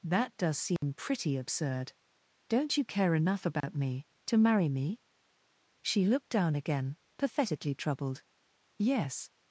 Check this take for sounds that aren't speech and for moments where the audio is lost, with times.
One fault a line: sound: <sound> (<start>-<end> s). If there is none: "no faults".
sound: dropout (0.8-0.8 s)
sound: dropout (3.6-3.6 s)